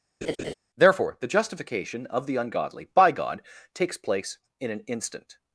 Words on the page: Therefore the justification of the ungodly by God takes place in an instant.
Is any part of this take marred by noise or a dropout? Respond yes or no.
yes